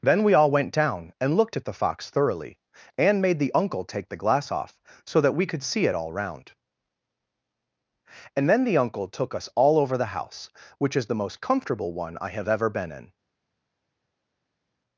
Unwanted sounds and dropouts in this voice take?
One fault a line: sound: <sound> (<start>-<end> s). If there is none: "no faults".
no faults